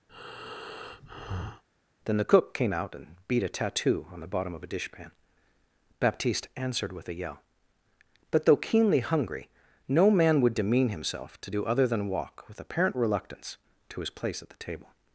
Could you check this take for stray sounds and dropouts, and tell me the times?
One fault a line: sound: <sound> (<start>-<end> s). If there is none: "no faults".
sound: breath (0.1-1.6 s)